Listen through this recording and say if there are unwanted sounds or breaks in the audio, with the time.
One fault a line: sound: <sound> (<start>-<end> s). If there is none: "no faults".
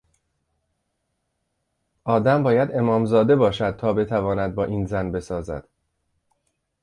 no faults